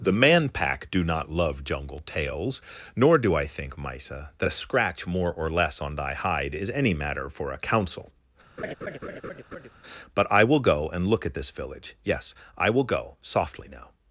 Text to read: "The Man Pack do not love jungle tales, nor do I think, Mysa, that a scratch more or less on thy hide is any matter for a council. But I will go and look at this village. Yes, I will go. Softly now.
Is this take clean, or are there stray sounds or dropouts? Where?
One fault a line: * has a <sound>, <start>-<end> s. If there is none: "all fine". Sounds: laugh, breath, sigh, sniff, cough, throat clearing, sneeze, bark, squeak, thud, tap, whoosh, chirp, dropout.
* has a laugh, 8.6-9.7 s